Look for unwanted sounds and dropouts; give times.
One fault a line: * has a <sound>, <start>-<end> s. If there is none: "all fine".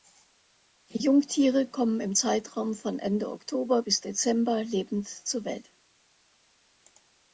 all fine